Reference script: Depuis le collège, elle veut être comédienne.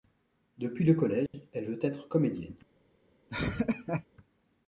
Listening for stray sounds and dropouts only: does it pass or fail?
fail